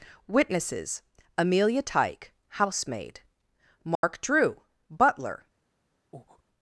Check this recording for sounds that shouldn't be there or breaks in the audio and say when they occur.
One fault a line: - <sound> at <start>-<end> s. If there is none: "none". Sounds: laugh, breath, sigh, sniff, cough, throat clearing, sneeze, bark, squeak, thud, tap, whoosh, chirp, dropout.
- dropout at 3.9-4.0 s
- breath at 6.1-6.4 s